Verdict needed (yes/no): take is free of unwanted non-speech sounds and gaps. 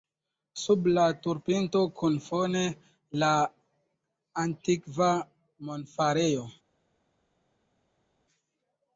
yes